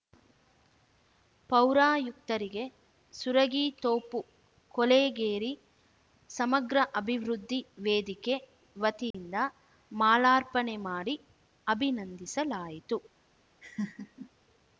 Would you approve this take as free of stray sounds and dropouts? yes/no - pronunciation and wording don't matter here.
no